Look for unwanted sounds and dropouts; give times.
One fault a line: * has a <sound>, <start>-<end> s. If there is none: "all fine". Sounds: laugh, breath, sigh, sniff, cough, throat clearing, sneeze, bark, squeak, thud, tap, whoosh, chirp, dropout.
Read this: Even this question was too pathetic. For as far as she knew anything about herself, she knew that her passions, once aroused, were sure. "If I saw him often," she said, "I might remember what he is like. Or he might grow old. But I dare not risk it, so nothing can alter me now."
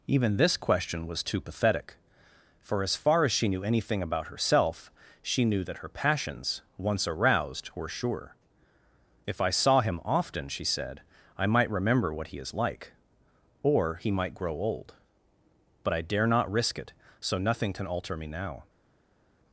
all fine